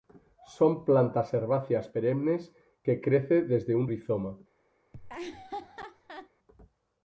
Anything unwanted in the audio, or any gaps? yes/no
yes